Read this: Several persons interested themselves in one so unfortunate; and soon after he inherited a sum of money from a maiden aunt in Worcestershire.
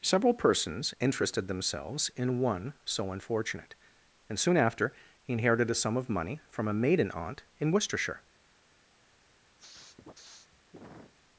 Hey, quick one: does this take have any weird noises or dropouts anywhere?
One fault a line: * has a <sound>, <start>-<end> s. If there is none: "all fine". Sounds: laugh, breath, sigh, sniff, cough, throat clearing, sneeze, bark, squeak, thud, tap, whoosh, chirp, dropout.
* has a sniff, 9.6-11.1 s